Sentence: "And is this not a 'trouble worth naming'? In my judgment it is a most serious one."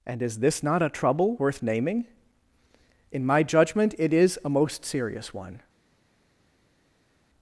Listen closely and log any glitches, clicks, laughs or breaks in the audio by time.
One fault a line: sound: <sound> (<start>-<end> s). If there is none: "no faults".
no faults